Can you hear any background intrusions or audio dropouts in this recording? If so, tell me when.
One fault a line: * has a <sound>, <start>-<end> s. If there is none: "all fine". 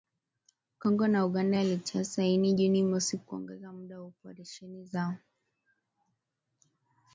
all fine